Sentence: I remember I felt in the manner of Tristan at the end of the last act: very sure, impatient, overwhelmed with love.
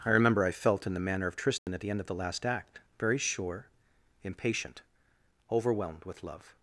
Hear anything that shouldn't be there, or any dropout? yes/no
yes